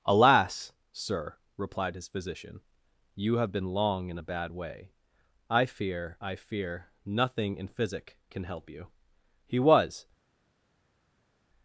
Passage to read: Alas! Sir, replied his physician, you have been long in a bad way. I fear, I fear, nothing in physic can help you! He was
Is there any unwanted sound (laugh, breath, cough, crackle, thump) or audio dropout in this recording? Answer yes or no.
no